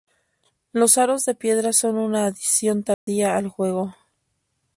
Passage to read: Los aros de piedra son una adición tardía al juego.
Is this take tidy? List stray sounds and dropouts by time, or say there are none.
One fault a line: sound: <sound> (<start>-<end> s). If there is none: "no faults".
sound: dropout (2.9-3.1 s)